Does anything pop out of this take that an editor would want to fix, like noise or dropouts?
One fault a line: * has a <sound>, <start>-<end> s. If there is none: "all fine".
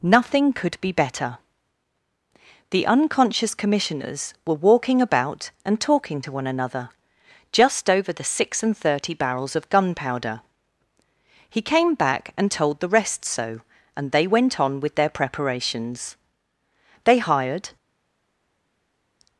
all fine